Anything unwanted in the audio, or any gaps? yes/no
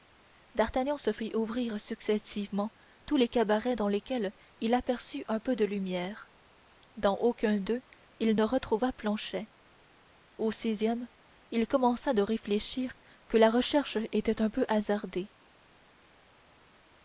no